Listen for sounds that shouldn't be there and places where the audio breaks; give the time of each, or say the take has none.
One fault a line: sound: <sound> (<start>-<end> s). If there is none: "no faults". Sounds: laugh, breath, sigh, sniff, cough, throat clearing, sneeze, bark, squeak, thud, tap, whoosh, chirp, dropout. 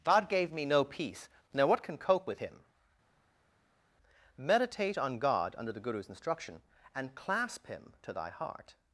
no faults